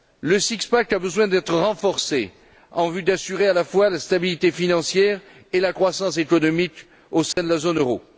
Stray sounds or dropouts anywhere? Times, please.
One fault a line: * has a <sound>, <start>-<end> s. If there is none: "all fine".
* has a dropout, 7.3-7.4 s